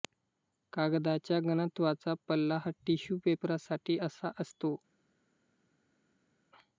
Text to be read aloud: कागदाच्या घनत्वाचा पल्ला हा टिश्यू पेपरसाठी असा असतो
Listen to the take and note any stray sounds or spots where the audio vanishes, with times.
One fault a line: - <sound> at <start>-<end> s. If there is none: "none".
none